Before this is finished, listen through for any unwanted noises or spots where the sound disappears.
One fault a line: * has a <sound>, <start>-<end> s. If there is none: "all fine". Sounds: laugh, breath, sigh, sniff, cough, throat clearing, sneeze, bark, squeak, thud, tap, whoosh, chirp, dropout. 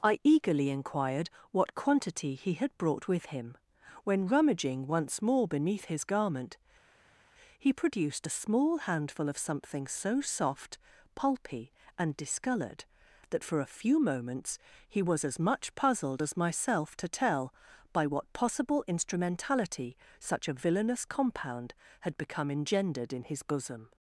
all fine